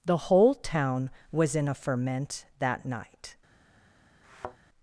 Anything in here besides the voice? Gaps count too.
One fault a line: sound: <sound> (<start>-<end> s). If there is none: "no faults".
sound: thud (4.2-4.6 s)